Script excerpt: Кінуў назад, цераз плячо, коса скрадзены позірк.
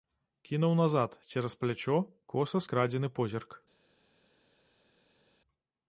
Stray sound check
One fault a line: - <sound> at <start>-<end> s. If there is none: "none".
none